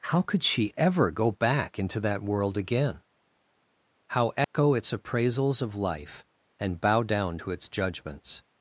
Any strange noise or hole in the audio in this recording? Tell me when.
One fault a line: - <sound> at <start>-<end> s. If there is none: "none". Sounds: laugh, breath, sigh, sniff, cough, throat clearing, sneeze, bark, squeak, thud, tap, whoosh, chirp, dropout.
- dropout at 4.4-4.5 s